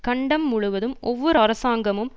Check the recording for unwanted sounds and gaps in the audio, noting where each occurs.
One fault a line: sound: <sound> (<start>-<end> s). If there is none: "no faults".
no faults